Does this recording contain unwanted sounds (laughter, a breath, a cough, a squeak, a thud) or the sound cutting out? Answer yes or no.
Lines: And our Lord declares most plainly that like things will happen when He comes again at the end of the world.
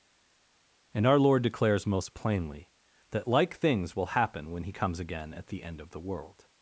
no